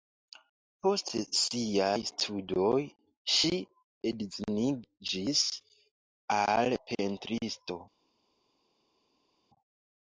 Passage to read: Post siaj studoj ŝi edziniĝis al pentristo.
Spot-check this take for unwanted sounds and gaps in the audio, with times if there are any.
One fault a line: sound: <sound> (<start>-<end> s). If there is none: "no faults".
no faults